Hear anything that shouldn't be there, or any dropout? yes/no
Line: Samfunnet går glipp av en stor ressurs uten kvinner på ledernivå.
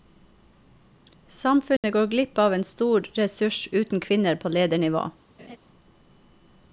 yes